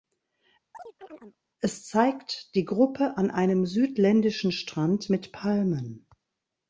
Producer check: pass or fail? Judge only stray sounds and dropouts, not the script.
fail